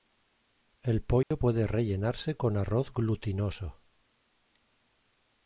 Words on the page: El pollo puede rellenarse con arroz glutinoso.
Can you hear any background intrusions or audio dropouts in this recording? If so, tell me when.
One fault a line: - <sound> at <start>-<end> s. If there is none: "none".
- dropout at 1.2-1.3 s